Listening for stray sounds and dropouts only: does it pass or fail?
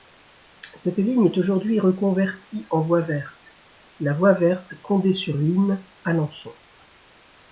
pass